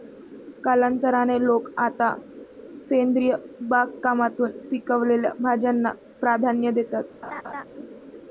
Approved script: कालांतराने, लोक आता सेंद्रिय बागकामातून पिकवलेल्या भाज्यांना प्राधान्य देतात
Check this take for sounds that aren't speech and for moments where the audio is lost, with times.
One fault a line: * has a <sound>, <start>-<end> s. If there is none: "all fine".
* has a laugh, 7.2-7.6 s